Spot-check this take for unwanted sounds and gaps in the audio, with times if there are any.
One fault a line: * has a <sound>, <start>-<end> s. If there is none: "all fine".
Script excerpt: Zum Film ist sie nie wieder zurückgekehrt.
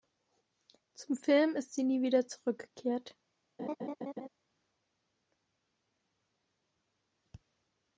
* has a laugh, 3.6-4.3 s